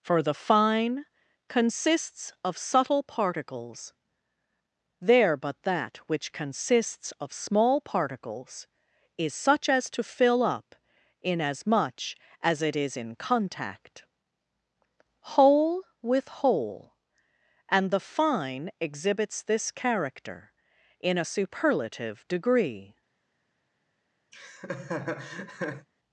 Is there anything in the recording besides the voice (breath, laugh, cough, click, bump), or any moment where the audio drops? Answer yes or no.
yes